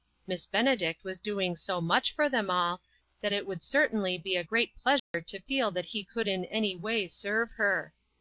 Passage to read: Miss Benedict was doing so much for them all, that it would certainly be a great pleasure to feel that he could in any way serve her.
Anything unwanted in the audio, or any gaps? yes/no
yes